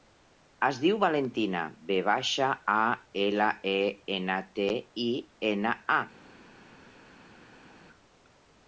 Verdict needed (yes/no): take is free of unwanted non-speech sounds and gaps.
yes